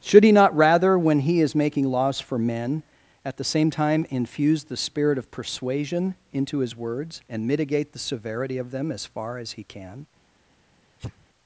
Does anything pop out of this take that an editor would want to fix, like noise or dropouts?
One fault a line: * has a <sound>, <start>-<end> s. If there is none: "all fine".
* has a sneeze, 11.0-11.3 s